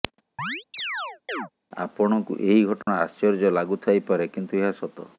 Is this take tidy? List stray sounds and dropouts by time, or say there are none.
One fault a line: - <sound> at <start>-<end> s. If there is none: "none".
- chirp at 0.4-1.5 s
- dropout at 2.8-2.9 s